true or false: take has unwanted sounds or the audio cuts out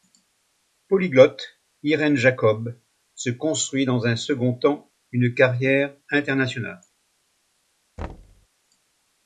true